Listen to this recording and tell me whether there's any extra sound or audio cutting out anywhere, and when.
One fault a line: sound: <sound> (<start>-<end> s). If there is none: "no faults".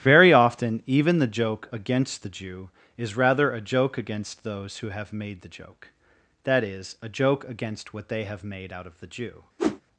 sound: whoosh (9.6-9.8 s)